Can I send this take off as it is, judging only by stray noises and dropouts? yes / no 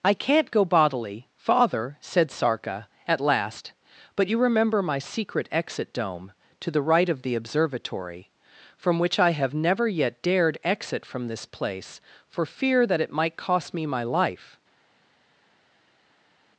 yes